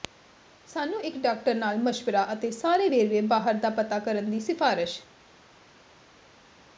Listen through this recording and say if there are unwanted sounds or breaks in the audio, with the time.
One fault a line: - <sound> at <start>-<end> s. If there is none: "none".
none